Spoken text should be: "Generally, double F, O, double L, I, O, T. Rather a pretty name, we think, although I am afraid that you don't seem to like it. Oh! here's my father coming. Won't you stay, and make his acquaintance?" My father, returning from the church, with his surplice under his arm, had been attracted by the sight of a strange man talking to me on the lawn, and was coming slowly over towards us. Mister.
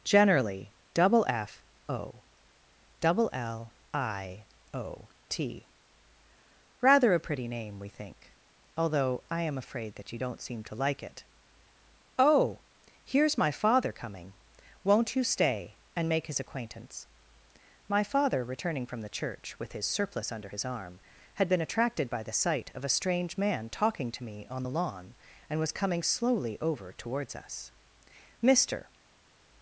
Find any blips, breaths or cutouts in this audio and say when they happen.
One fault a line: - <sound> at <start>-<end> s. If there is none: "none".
none